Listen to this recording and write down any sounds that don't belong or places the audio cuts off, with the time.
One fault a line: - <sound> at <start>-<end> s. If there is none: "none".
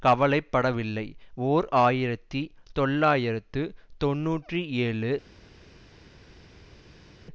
none